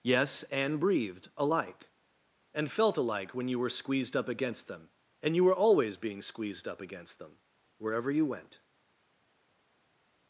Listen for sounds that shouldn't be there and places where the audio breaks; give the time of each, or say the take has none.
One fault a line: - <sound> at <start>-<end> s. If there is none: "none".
none